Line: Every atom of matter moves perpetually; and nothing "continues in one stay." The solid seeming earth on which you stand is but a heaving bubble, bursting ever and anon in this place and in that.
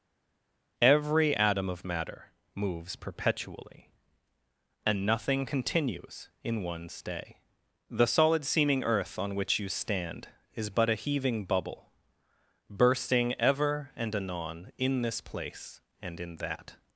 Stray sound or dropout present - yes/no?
no